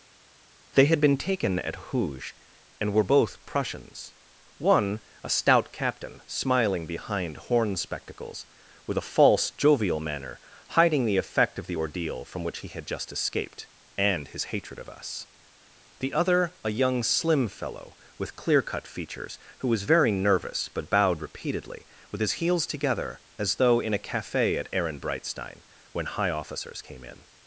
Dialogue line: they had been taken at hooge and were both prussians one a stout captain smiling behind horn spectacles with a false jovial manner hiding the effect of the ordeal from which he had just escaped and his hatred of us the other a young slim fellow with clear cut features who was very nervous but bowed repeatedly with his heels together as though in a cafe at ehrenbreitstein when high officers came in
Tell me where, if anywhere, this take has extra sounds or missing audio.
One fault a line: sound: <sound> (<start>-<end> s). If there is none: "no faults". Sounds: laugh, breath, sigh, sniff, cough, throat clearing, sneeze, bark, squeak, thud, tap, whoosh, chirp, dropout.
no faults